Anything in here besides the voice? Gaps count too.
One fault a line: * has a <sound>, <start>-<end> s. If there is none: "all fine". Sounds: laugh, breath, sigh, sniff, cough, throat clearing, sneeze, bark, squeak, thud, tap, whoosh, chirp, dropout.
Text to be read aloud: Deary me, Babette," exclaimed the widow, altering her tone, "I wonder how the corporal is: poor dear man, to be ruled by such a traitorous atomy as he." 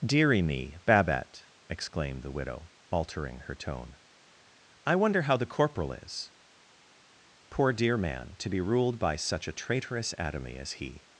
all fine